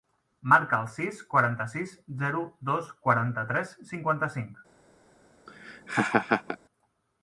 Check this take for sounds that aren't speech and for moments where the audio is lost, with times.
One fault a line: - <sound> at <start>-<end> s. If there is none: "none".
- laugh at 5.5-6.6 s